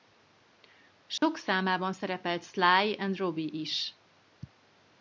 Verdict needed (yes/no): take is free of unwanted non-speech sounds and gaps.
no